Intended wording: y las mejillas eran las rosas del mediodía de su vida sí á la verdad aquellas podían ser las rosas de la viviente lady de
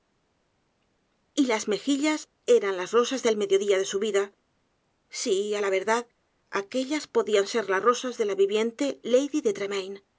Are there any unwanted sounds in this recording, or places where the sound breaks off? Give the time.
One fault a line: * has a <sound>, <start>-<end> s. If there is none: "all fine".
all fine